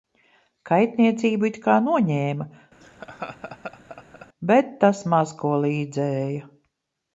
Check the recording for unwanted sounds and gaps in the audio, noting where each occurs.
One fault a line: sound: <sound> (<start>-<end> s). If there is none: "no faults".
sound: laugh (2.8-4.3 s)